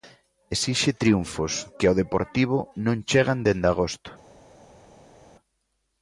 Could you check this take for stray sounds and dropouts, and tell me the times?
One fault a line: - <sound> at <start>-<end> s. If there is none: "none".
none